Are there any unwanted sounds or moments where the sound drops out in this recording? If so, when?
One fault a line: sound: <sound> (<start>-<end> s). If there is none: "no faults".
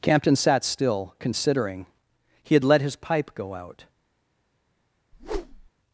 sound: whoosh (5.1-5.7 s)